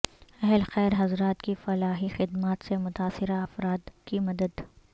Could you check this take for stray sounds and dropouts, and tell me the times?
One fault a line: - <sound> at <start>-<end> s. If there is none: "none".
none